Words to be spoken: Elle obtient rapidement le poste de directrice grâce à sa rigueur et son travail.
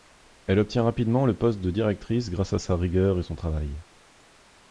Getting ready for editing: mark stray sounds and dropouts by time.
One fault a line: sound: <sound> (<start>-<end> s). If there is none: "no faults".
no faults